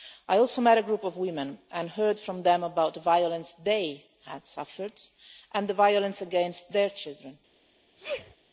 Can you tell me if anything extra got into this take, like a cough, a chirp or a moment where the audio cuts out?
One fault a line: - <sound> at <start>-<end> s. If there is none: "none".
- sneeze at 7.9-8.4 s